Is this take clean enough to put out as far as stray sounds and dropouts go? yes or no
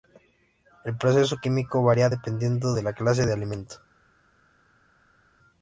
yes